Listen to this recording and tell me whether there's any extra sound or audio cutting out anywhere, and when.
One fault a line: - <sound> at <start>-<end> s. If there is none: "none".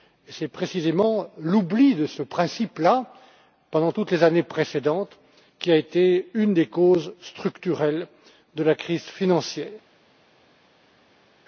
none